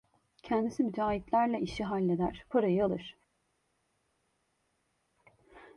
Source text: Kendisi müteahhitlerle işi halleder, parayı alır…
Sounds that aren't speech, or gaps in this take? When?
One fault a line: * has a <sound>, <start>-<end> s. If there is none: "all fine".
all fine